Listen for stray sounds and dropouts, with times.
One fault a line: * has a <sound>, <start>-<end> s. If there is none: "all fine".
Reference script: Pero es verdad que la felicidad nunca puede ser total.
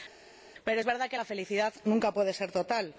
all fine